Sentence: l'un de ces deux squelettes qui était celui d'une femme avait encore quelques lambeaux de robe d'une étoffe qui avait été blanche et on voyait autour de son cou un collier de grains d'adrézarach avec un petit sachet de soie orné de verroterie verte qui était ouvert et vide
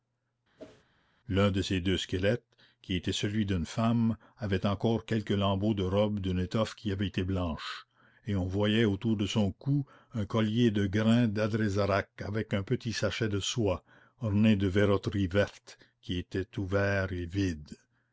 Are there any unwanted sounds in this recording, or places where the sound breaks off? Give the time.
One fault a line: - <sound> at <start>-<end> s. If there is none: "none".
- whoosh at 0.6-0.8 s